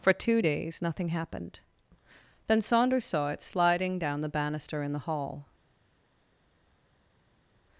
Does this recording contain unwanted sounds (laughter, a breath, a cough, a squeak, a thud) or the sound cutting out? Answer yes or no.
no